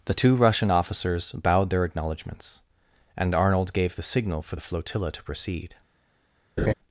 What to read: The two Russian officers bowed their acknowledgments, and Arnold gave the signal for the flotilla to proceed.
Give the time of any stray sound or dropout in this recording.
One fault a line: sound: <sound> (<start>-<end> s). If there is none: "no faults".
sound: laugh (6.6-6.7 s)